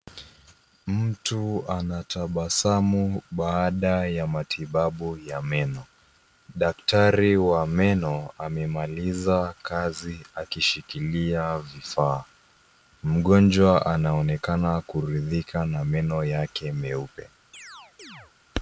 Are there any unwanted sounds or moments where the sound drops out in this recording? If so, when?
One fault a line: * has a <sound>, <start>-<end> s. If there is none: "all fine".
* has a chirp, 17.5-18.3 s